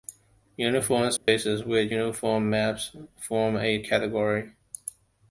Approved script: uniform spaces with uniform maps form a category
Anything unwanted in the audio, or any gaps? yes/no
yes